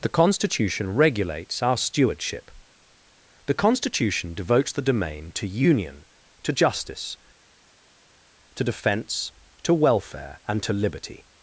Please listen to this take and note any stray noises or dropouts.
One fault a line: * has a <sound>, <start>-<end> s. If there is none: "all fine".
all fine